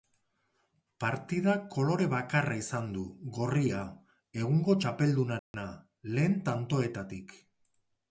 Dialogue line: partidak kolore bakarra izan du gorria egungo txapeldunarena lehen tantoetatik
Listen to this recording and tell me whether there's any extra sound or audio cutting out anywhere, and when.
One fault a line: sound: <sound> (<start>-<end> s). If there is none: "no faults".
sound: dropout (5.4-5.5 s)